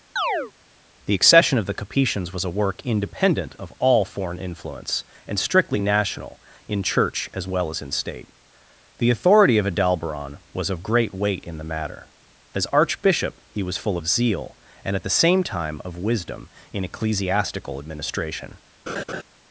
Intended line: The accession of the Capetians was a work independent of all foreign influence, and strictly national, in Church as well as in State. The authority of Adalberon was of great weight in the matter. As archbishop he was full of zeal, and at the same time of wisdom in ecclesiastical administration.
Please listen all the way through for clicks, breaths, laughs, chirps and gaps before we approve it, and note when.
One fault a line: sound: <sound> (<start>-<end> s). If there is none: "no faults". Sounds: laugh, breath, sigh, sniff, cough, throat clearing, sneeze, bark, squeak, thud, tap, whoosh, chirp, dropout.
sound: chirp (0.2-0.5 s)
sound: laugh (18.9-19.2 s)